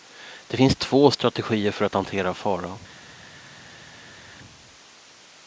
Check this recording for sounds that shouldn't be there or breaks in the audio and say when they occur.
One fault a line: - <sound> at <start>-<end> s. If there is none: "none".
none